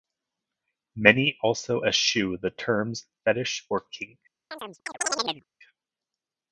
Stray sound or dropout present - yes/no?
yes